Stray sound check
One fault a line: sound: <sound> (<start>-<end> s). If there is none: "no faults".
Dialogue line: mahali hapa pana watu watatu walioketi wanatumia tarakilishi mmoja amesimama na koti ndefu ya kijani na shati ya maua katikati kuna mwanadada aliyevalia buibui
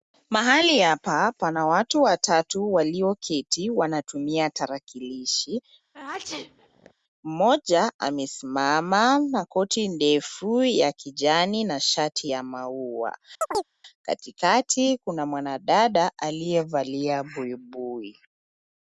sound: sneeze (5.9-6.9 s)
sound: chirp (13.4-13.7 s)